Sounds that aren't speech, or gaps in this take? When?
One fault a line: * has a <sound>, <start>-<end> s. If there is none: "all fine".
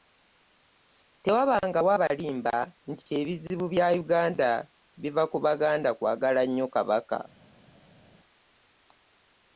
all fine